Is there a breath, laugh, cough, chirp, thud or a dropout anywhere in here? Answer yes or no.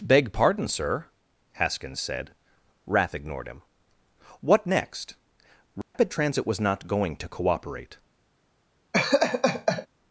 yes